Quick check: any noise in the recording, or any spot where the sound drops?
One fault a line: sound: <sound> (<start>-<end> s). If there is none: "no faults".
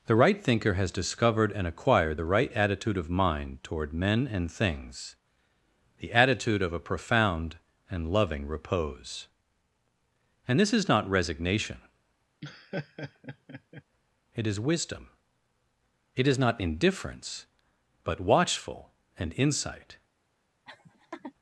sound: laugh (12.4-13.8 s)
sound: laugh (20.7-21.3 s)